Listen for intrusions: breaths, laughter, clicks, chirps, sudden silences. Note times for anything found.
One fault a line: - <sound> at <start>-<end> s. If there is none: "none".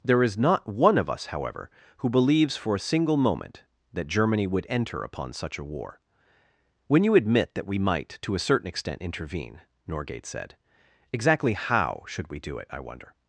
none